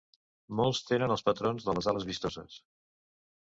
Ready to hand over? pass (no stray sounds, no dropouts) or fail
pass